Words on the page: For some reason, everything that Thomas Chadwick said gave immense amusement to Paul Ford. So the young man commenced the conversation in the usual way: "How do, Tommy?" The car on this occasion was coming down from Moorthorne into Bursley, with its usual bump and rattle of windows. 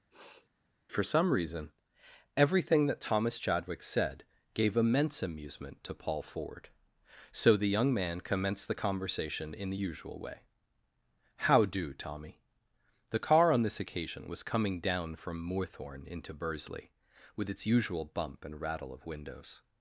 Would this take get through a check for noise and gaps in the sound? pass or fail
fail